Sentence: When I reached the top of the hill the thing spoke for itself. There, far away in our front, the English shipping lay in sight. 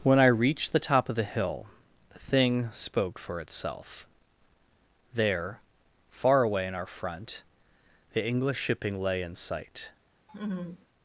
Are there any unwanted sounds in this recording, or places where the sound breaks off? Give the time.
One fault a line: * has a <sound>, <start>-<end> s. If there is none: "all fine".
* has a laugh, 10.3-10.9 s